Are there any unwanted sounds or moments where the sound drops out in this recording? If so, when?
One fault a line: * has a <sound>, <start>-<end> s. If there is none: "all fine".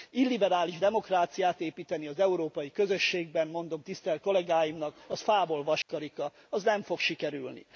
* has a dropout, 5.8-5.9 s